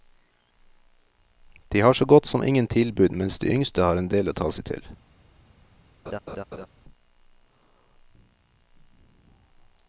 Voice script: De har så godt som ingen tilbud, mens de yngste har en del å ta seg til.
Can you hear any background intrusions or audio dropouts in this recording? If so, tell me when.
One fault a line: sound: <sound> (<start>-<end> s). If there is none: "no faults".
sound: laugh (6.1-6.7 s)